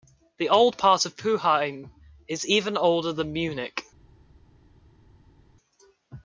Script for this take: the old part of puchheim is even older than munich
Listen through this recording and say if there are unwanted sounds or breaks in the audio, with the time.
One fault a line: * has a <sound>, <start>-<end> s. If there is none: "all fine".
all fine